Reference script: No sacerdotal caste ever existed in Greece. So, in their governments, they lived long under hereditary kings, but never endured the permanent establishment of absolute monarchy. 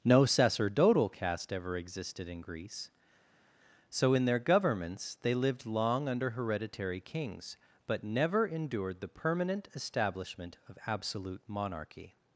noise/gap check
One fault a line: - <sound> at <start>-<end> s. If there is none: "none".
none